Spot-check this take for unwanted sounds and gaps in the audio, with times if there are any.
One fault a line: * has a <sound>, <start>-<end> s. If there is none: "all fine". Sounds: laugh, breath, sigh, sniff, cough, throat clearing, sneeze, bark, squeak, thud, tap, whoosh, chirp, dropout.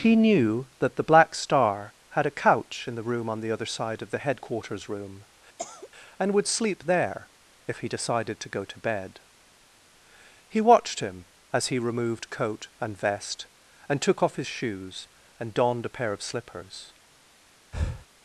* has a cough, 5.6-5.9 s
* has a breath, 17.7-18.1 s